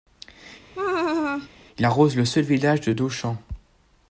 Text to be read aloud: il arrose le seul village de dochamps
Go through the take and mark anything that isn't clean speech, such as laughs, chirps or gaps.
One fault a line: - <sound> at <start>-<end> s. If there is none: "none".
- laugh at 0.7-1.5 s